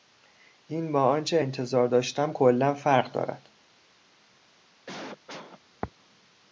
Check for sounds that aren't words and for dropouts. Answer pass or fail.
fail